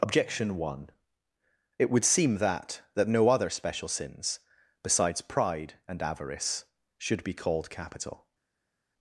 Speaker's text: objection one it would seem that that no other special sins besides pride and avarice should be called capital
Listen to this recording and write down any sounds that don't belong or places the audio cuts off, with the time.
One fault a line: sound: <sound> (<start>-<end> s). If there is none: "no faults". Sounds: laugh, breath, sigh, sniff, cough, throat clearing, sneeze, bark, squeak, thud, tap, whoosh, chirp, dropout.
no faults